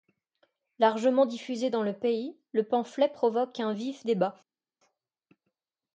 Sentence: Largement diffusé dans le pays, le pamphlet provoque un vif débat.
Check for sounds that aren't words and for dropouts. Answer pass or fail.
pass